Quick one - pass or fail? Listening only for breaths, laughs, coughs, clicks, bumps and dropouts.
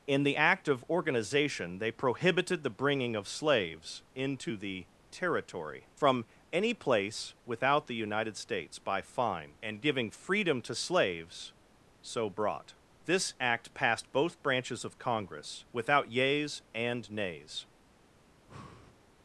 fail